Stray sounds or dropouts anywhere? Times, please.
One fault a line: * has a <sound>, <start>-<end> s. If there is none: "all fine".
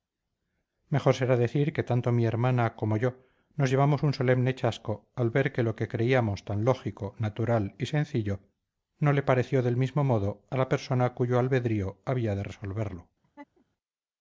* has a laugh, 13.2-13.7 s